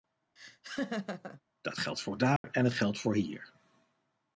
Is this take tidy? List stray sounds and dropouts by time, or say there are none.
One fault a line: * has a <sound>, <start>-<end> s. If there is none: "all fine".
* has a laugh, 0.4-1.4 s
* has a dropout, 2.4-2.4 s